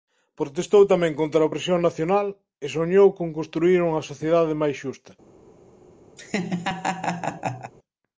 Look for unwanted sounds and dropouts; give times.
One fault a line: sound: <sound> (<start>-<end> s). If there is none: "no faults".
sound: laugh (6.2-7.7 s)